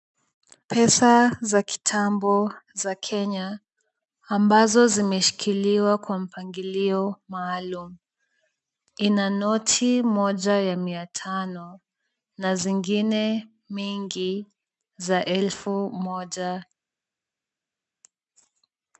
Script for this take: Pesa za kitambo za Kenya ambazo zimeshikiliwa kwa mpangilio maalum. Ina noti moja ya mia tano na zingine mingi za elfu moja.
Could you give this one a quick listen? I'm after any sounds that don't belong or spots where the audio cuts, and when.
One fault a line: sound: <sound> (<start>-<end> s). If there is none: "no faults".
no faults